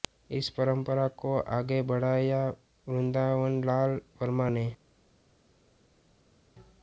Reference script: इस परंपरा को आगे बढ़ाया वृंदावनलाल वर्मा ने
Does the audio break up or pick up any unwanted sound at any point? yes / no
no